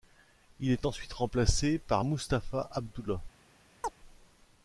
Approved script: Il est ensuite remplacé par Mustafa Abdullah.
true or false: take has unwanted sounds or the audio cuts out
true